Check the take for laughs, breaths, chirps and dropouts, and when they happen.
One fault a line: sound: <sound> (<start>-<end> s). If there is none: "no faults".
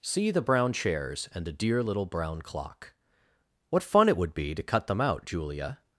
no faults